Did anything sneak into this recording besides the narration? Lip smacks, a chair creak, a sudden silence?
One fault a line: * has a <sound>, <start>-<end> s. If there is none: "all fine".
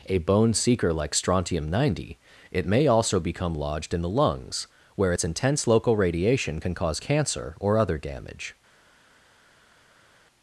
all fine